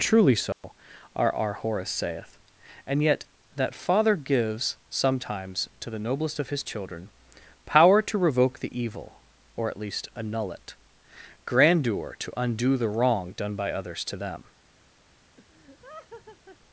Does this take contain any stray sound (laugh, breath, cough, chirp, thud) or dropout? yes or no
yes